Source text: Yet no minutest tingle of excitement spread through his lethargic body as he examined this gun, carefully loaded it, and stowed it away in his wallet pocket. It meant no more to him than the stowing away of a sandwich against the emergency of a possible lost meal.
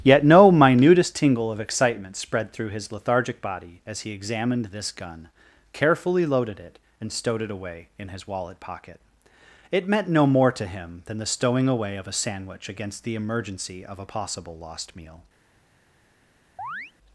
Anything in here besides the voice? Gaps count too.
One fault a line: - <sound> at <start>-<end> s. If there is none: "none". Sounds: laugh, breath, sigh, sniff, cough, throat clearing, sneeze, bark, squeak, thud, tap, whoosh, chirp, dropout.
- chirp at 16.6-16.9 s